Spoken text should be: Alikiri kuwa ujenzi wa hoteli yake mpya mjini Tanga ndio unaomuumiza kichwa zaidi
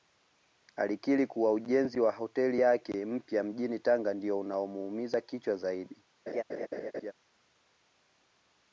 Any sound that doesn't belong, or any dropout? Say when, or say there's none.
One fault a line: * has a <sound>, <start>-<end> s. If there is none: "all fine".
* has a laugh, 6.3-7.1 s